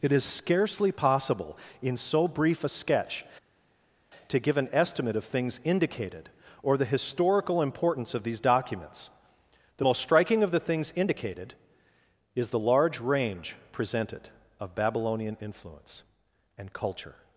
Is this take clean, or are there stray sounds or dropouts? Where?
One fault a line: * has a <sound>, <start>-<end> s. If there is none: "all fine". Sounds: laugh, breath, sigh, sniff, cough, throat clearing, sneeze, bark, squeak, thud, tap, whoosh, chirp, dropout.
all fine